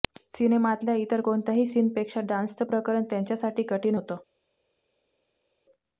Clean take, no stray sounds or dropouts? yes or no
yes